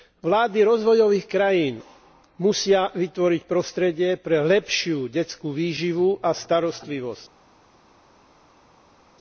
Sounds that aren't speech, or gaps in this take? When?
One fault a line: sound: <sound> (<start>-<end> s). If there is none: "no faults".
no faults